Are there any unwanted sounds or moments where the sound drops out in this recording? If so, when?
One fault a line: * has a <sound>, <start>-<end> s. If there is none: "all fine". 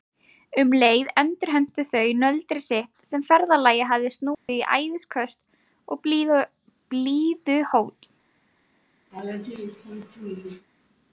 * has a dropout, 4.3-4.5 s
* has a laugh, 9.1-10.7 s